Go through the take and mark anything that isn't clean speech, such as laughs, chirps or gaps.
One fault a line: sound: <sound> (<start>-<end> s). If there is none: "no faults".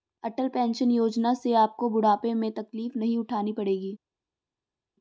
no faults